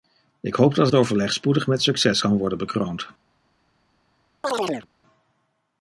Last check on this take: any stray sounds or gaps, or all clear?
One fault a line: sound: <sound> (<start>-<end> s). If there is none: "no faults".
sound: chirp (4.4-4.9 s)